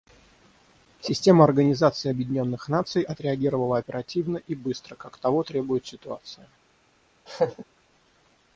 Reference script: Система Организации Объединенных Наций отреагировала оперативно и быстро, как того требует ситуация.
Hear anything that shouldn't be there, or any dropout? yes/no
yes